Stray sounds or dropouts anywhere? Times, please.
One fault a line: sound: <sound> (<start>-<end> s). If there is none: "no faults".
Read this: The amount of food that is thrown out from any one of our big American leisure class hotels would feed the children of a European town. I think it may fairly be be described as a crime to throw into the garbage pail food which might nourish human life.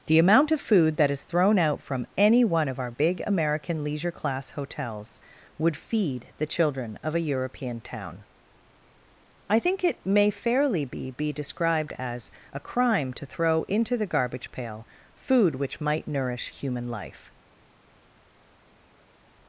no faults